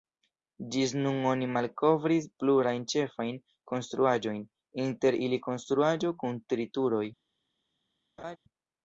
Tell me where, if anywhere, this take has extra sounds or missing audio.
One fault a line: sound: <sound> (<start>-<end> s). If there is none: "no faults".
sound: laugh (8.2-8.4 s)